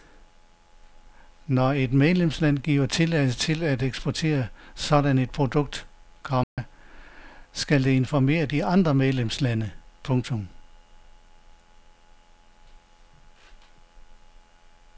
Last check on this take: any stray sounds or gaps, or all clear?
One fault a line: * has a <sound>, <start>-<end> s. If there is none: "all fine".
* has a dropout, 6.4-6.6 s